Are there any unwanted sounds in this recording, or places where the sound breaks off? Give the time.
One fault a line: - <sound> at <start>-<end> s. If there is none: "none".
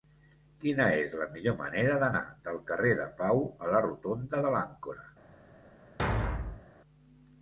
- thud at 6.0-6.7 s